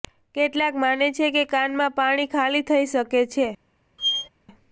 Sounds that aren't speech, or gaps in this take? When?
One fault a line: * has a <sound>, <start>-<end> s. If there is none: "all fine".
* has a squeak, 4.0-4.3 s